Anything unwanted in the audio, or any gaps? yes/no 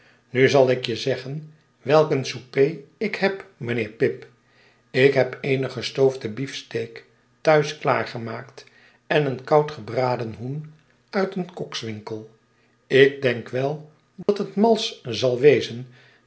yes